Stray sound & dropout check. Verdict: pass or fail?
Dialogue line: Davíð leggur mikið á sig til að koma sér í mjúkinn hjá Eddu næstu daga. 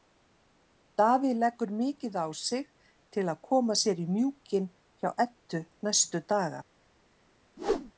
fail